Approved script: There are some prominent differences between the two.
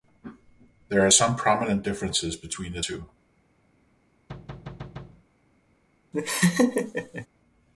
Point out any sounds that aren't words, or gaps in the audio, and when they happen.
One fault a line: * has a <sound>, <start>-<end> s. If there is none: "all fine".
* has a thud, 4.3-5.2 s
* has a laugh, 6.1-7.3 s